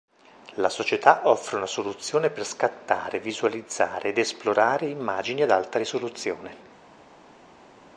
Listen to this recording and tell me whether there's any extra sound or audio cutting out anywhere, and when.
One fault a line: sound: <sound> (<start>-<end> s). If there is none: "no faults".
no faults